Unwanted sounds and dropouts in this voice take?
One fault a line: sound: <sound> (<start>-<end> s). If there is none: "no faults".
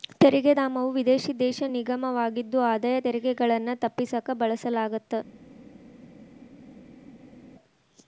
no faults